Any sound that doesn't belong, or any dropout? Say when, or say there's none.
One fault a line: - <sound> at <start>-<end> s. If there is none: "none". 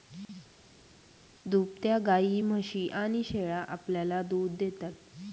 none